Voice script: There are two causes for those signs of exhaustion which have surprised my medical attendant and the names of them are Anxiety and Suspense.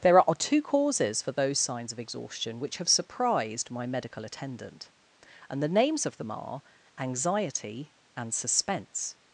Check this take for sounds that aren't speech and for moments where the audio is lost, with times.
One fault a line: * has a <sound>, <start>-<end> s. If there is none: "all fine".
all fine